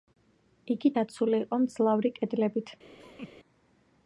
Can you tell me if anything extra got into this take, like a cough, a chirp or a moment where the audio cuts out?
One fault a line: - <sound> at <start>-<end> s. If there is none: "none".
- laugh at 3.0-3.3 s